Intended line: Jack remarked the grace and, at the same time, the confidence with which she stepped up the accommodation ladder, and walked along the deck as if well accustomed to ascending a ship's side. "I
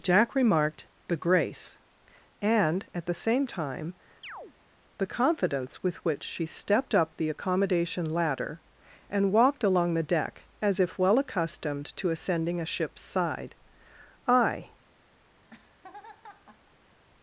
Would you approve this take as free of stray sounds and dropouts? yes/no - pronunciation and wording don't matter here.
no